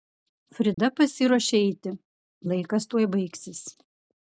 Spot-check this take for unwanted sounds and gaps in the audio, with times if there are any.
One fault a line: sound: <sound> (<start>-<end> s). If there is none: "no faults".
sound: dropout (0.7-0.8 s)